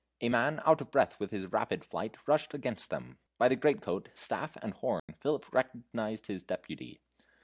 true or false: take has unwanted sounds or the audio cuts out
true